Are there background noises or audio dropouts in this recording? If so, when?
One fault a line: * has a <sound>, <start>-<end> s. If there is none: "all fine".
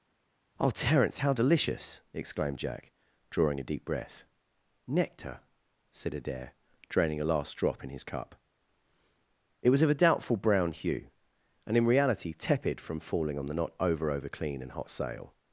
all fine